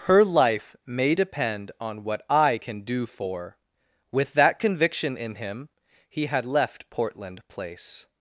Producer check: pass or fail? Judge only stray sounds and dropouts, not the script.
pass